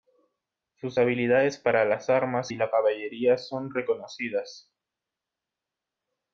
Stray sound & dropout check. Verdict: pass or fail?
pass